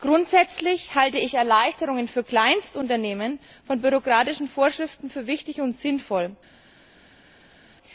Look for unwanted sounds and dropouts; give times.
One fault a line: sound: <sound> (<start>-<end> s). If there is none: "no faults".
no faults